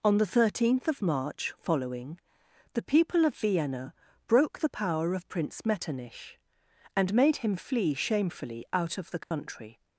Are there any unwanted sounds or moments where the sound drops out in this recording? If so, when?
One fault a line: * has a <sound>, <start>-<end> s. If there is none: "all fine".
* has a dropout, 9.2-9.3 s